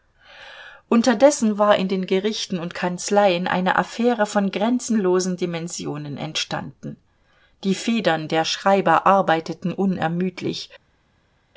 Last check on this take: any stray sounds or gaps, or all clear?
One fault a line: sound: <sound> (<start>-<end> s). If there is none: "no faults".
no faults